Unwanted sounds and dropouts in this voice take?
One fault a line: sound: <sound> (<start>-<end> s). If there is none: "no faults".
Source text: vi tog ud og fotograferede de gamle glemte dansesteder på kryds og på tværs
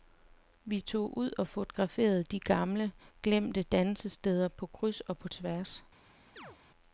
sound: chirp (6.4-6.6 s)